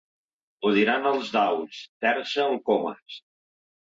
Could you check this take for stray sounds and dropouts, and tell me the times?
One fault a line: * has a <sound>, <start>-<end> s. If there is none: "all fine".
all fine